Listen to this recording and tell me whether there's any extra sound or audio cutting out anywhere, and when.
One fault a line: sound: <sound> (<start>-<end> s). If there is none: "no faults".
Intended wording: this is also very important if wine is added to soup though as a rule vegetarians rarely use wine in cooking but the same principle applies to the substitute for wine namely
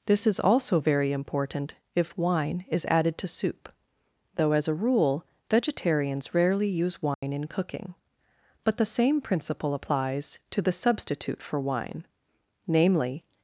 sound: dropout (7.1-7.2 s)